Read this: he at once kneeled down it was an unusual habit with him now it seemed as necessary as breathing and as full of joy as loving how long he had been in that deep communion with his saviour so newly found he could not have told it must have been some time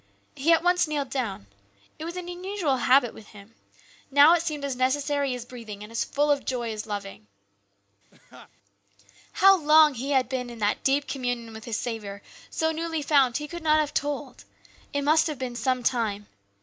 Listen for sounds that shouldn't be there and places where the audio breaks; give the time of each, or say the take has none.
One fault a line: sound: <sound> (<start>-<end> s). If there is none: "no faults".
sound: laugh (8.1-8.5 s)